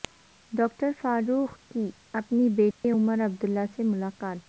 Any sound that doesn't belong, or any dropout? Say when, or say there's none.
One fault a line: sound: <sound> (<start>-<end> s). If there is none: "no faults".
sound: dropout (2.7-2.8 s)